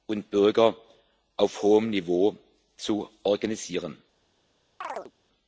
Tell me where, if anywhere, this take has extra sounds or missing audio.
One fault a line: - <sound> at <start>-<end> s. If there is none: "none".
- chirp at 4.8-5.1 s